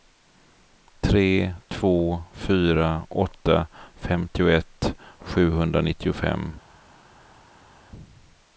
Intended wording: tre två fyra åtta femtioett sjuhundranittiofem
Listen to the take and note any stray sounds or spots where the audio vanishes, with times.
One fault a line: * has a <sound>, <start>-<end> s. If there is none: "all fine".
all fine